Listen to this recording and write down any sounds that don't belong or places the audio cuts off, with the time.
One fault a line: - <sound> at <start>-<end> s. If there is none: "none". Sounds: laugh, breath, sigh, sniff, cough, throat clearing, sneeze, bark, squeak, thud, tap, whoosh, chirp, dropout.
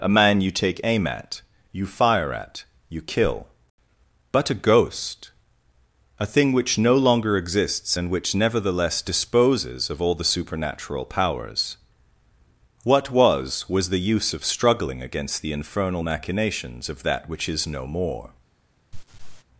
- laugh at 18.9-19.4 s